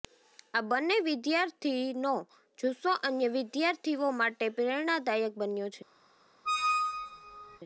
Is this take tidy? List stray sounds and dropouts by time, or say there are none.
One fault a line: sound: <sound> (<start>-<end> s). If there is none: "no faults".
sound: squeak (6.5-7.6 s)